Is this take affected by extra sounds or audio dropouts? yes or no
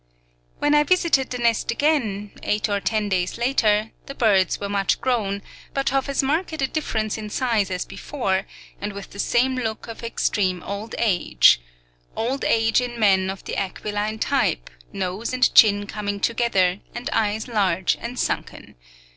no